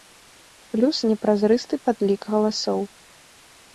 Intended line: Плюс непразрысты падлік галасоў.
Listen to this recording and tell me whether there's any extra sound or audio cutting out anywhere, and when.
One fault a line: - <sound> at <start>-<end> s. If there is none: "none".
none